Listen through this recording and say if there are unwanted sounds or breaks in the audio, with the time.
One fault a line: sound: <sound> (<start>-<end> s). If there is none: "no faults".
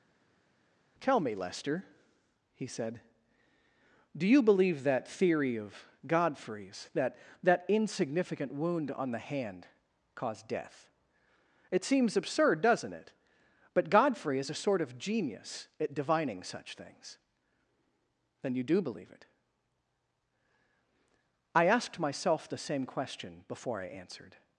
no faults